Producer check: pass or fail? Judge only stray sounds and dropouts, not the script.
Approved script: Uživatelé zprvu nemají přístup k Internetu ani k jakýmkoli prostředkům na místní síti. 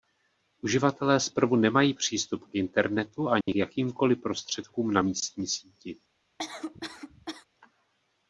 fail